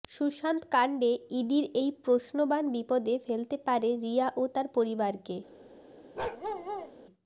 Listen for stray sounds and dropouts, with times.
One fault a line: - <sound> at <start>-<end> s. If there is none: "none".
- bark at 6.2-6.9 s